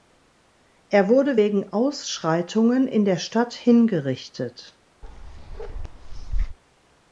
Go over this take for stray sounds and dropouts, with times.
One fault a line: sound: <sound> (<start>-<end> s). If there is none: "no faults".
sound: bark (5.0-6.6 s)